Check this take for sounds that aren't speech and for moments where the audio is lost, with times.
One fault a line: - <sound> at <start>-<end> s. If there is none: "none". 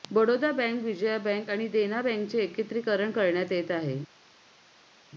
none